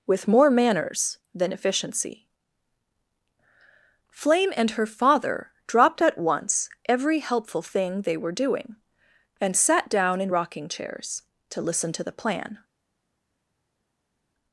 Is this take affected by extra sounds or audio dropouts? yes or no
no